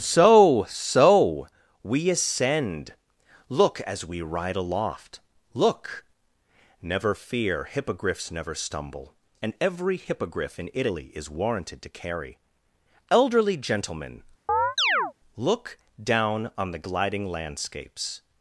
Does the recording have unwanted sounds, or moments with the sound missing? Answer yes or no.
yes